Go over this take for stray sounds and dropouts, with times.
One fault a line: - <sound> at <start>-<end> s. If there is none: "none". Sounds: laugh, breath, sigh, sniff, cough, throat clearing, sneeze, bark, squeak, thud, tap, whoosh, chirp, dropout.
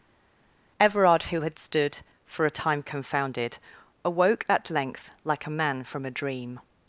none